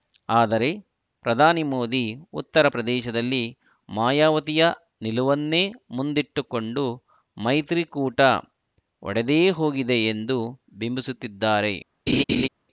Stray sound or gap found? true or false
true